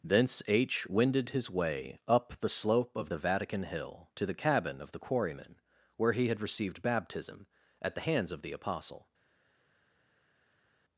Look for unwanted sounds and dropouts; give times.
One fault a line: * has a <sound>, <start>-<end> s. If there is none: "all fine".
all fine